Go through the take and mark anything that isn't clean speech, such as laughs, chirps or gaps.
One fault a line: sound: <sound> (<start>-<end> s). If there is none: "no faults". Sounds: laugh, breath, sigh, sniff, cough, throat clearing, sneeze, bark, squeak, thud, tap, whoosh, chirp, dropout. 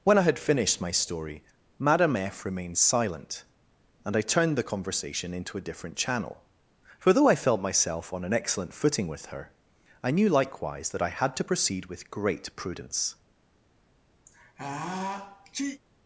sound: sneeze (14.2-15.8 s)